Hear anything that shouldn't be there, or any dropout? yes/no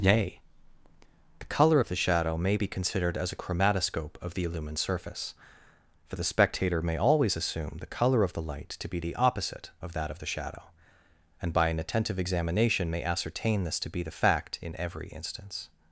no